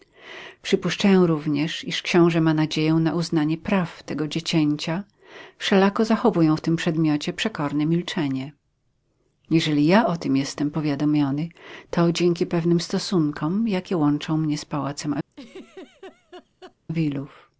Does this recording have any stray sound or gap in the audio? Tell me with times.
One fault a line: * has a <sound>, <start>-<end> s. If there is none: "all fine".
* has a laugh, 15.3-16.8 s